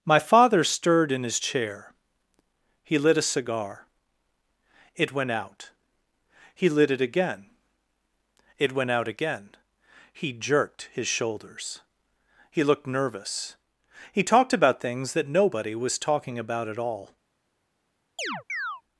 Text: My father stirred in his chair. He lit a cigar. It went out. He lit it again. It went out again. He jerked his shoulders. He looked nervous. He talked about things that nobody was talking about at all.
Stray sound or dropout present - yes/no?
yes